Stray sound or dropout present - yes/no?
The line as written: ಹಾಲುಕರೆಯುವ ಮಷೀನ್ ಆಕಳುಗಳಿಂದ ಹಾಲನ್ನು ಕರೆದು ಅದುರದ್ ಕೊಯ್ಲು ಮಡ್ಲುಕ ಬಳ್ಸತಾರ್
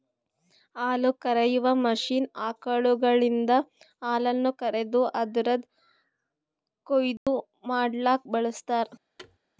yes